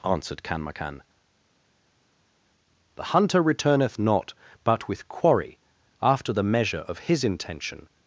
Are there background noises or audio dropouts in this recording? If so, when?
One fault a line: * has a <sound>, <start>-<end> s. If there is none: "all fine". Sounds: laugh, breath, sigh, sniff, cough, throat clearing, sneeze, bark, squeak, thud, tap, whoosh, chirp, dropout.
all fine